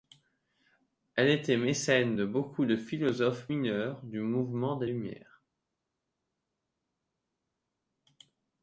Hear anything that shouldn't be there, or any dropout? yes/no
no